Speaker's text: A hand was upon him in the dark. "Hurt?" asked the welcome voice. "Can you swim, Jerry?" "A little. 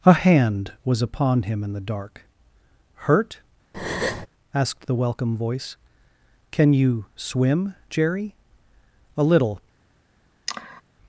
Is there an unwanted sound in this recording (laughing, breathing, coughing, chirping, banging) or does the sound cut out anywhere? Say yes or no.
yes